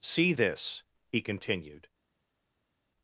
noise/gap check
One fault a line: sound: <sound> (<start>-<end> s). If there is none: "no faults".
no faults